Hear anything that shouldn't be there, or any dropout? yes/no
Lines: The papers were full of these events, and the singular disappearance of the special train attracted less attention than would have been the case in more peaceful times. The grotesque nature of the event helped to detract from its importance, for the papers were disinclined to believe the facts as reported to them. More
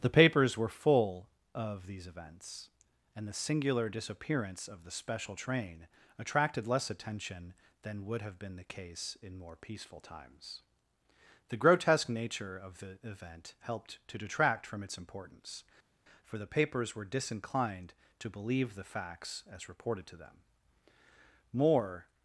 no